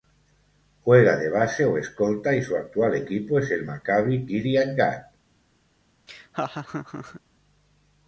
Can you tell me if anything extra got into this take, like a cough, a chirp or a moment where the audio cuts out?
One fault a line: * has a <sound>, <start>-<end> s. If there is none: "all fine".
* has a laugh, 6.1-7.2 s